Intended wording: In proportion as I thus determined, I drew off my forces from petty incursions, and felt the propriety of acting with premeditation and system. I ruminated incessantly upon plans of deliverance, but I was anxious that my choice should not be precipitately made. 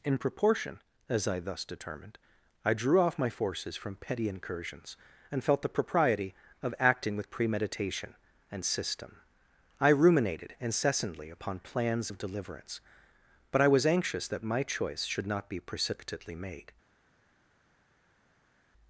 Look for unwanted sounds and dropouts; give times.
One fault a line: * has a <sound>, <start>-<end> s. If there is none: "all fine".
all fine